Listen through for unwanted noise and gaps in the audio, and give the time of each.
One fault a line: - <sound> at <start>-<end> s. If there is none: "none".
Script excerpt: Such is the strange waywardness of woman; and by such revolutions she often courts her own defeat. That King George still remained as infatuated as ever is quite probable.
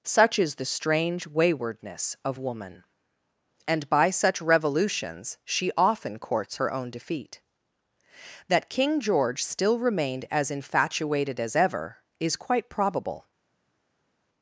none